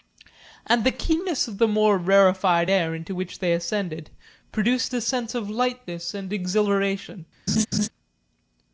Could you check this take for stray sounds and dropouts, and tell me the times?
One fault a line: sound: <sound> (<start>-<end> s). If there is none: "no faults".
sound: laugh (7.5-7.9 s)